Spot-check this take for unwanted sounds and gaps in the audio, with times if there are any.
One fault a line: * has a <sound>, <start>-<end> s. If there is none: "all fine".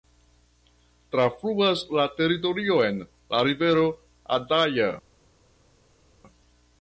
all fine